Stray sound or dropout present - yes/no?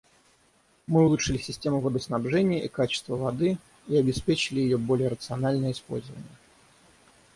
no